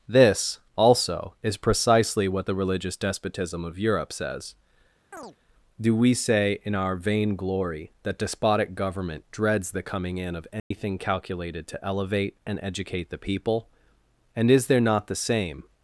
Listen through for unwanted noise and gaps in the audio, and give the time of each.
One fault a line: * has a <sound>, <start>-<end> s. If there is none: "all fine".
* has a chirp, 5.1-5.4 s
* has a dropout, 10.6-10.7 s